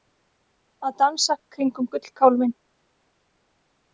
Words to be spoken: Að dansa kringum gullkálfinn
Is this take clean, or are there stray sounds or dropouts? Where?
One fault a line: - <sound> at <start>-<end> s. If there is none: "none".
none